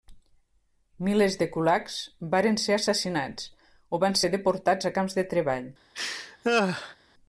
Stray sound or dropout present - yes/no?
yes